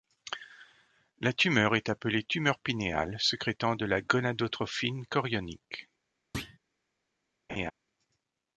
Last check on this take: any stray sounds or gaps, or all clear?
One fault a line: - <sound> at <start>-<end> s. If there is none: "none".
- thud at 6.3-6.6 s
- laugh at 7.5-7.7 s